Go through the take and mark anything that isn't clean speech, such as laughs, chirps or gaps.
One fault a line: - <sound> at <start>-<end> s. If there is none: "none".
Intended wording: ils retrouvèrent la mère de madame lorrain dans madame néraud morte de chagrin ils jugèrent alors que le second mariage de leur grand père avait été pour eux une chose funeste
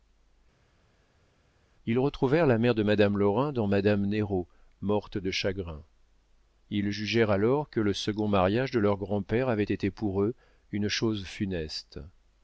none